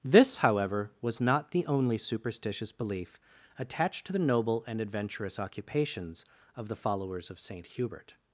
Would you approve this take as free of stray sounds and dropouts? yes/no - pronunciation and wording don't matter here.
yes